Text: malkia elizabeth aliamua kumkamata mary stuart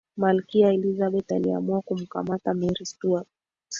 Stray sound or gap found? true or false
false